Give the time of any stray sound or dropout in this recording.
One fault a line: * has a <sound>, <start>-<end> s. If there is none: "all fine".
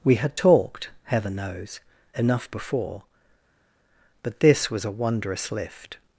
all fine